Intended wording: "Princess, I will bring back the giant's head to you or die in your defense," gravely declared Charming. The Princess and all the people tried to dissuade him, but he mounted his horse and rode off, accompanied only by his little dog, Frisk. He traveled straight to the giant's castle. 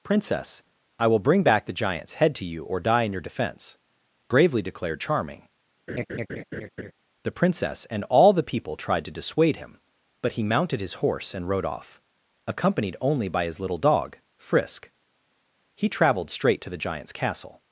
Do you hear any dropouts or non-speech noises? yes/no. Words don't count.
yes